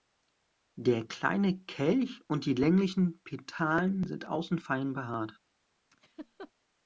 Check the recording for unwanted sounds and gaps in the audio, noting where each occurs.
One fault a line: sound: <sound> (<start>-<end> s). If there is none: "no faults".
sound: laugh (5.9-6.5 s)